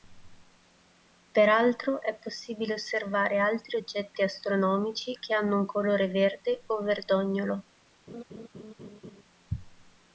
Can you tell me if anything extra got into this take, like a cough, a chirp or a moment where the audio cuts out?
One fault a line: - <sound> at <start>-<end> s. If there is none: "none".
- laugh at 8.1-9.2 s